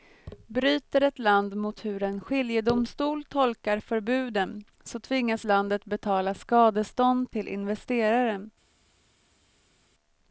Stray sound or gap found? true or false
false